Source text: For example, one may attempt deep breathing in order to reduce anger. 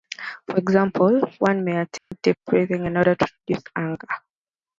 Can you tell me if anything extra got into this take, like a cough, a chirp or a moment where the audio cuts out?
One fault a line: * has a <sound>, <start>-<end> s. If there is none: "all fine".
* has a dropout, 2.0-2.1 s